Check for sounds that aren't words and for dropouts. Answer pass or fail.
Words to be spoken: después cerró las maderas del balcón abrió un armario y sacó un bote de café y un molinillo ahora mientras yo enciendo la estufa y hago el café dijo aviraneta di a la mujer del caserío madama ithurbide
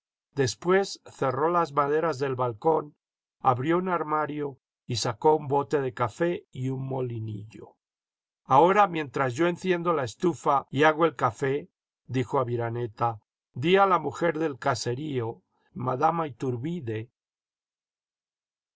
pass